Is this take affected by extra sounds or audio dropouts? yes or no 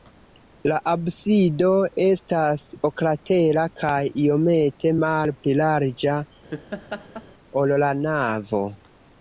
yes